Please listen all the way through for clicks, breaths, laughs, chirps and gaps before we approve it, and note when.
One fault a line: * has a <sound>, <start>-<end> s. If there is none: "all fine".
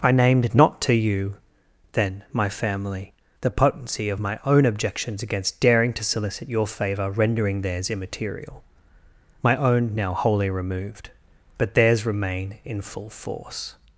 all fine